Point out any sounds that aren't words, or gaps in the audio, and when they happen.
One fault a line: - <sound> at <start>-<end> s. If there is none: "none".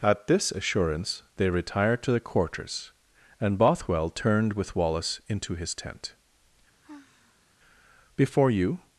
- sigh at 6.8-7.5 s